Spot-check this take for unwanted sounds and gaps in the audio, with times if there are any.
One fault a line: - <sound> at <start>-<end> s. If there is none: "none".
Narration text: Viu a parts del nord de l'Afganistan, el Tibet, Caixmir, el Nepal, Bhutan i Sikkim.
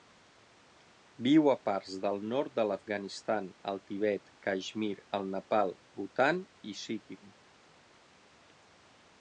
none